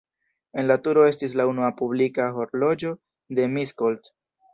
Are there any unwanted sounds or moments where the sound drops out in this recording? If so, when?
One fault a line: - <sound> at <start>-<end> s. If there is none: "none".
none